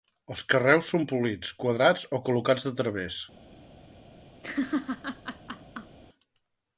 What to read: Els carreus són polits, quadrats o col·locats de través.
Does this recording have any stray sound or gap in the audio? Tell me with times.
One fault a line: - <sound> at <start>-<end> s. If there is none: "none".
- laugh at 4.4-6.0 s